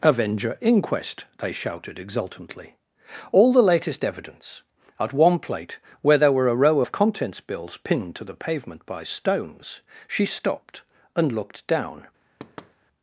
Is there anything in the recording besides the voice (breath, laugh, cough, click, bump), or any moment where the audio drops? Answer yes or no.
yes